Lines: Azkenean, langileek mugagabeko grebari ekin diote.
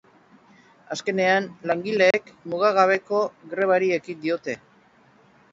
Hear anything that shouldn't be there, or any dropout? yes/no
yes